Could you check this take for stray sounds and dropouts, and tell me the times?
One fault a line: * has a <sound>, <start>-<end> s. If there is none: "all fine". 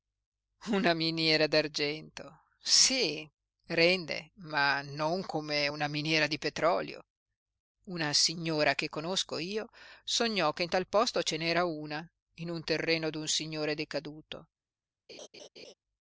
* has a laugh, 15.1-15.7 s